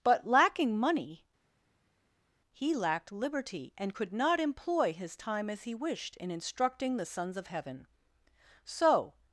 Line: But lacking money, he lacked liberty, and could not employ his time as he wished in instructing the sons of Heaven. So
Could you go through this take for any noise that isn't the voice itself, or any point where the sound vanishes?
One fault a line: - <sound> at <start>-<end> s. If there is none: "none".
none